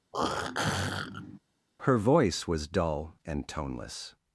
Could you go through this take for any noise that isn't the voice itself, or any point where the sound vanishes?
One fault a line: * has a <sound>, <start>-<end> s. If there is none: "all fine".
* has a throat clearing, 0.1-1.4 s